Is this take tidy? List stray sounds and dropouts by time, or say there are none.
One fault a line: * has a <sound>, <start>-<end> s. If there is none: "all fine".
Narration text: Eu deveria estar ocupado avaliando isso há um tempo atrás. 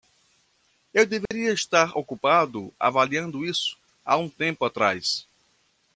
* has a dropout, 1.3-1.3 s